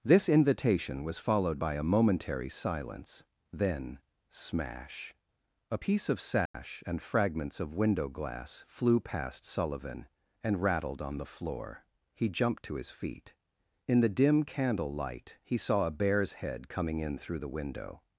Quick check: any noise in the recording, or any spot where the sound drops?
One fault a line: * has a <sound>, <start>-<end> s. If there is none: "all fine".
* has a dropout, 6.5-6.5 s